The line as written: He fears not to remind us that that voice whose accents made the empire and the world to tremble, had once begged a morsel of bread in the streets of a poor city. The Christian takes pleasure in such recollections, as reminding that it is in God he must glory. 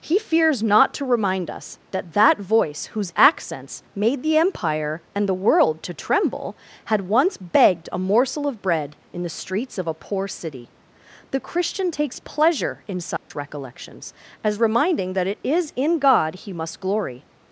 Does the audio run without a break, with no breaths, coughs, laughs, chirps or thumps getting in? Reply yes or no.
no